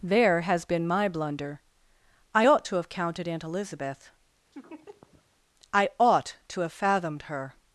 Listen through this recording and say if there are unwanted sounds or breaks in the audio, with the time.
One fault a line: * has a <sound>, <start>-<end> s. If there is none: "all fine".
* has a laugh, 4.5-5.3 s